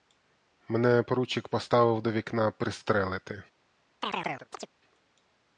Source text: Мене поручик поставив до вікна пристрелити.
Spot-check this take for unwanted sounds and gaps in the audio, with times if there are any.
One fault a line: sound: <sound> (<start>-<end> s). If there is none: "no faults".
sound: chirp (4.0-4.7 s)